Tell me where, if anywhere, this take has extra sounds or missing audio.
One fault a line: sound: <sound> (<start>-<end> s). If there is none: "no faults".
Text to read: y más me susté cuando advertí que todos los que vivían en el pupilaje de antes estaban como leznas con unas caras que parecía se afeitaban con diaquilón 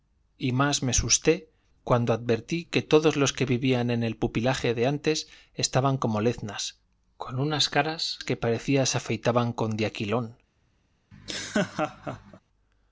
sound: laugh (11.1-12.4 s)